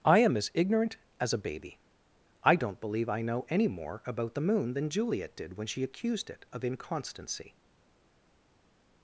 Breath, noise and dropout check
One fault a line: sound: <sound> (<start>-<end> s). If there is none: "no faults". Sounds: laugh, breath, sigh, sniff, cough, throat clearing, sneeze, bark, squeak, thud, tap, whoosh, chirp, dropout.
no faults